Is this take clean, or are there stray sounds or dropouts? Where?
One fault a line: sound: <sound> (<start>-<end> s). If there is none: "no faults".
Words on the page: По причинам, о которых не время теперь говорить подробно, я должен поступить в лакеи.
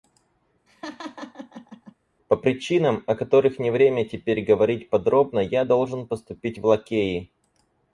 sound: laugh (0.7-1.9 s)